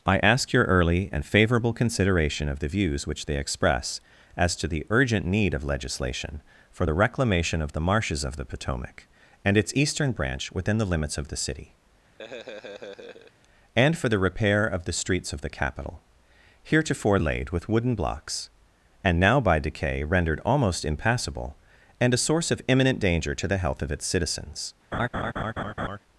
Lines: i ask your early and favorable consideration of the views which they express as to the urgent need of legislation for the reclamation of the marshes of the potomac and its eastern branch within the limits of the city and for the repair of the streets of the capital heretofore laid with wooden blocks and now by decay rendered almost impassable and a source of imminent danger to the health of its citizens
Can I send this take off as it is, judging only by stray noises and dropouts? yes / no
no